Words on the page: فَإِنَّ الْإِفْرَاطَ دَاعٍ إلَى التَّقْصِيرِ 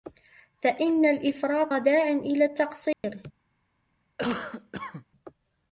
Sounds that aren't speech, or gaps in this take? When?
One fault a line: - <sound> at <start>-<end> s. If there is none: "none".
- dropout at 2.9-3.0 s
- cough at 4.2-5.0 s